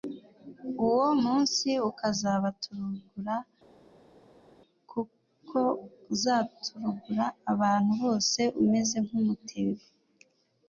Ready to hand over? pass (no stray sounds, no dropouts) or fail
pass